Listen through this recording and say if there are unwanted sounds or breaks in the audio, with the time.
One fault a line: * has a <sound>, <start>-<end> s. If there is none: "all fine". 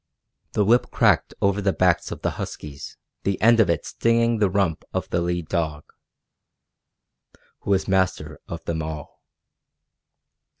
all fine